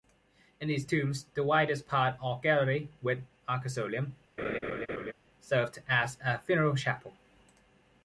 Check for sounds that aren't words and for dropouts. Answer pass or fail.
fail